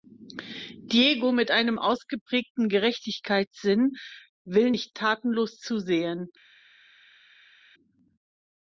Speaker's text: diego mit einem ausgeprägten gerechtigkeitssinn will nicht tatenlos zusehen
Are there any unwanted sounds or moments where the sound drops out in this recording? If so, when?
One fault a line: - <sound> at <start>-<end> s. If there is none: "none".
none